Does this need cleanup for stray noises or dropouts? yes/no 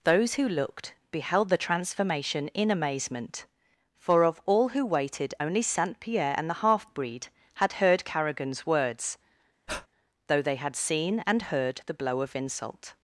yes